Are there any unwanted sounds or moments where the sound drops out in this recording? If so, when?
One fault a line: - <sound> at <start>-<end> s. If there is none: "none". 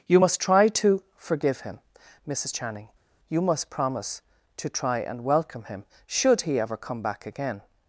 none